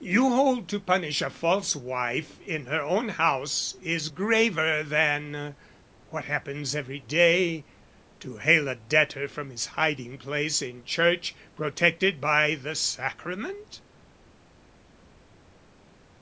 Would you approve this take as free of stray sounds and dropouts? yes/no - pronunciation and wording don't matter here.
yes